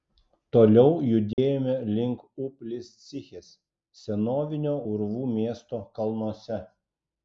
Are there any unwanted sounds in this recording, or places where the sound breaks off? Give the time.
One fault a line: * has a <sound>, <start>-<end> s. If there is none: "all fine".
* has a dropout, 1.3-1.4 s